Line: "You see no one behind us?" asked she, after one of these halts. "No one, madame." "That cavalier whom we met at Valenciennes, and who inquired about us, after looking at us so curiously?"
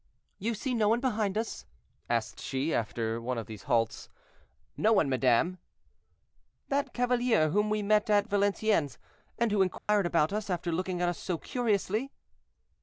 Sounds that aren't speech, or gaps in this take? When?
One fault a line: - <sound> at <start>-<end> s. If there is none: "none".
- dropout at 9.8-9.9 s